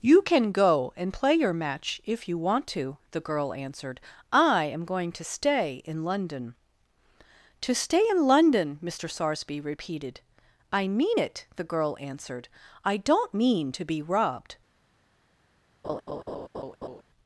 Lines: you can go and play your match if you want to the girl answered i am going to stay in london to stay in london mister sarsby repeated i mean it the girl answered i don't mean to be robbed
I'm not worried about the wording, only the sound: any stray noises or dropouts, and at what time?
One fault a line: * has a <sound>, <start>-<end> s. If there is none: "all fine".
* has a laugh, 15.8-17.0 s